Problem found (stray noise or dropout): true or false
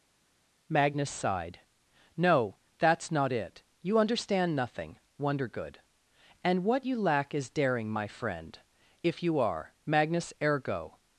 false